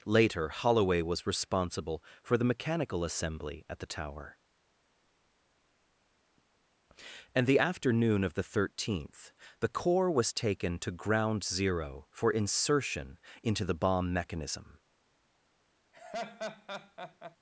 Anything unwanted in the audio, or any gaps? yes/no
yes